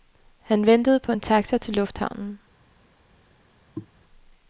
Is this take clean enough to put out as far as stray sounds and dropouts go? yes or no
no